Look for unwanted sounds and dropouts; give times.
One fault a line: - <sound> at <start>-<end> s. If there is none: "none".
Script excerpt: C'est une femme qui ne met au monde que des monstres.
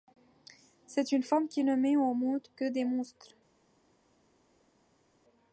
none